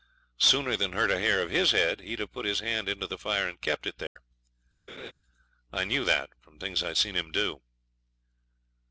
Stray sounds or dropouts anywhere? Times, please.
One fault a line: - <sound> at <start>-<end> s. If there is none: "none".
- dropout at 4.1-4.2 s
- laugh at 4.9-5.1 s